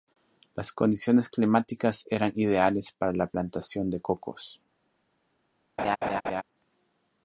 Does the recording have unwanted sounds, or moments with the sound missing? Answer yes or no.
yes